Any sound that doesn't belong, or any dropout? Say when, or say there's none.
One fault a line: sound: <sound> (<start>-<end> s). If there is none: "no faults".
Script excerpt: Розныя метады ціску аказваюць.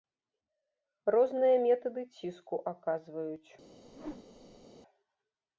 sound: whoosh (3.8-4.7 s)